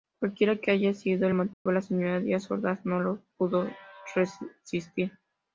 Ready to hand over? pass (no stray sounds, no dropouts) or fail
fail